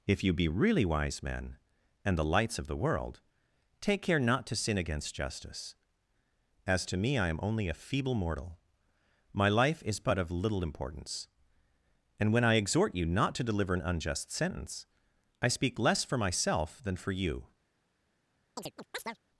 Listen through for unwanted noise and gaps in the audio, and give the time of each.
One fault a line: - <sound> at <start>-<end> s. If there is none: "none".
- chirp at 18.6-19.2 s